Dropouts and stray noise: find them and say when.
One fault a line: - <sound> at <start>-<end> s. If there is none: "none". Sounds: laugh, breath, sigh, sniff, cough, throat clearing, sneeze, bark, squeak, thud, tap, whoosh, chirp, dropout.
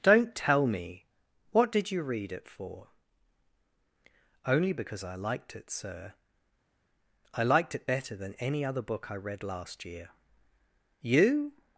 none